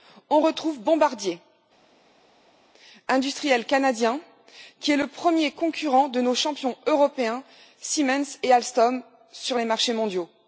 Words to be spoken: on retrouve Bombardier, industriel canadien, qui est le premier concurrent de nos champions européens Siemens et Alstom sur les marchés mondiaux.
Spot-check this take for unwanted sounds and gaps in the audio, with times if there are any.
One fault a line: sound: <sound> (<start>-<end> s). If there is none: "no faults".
no faults